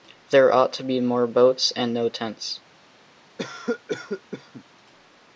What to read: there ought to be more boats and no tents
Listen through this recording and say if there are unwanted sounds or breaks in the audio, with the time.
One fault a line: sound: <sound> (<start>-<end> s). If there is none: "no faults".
sound: cough (3.4-4.6 s)